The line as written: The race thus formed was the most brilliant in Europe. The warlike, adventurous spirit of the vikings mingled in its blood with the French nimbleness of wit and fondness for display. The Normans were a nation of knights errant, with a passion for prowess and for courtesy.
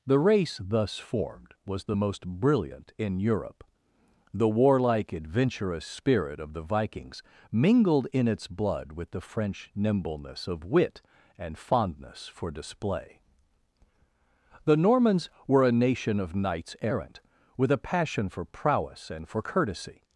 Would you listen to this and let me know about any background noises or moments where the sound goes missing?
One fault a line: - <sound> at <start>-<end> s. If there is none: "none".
none